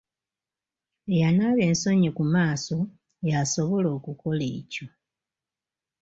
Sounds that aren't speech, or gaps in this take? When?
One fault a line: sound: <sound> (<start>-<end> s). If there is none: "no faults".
no faults